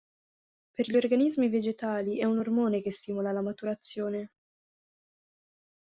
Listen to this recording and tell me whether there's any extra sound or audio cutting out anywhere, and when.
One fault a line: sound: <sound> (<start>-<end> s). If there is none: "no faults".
no faults